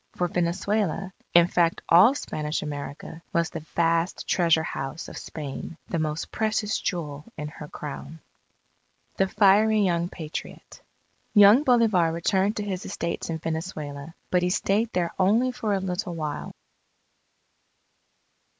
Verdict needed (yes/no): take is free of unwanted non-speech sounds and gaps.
yes